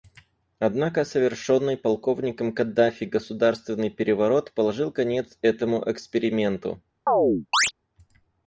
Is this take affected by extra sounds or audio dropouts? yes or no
yes